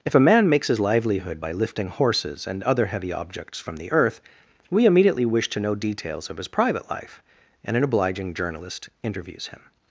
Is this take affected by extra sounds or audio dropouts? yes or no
no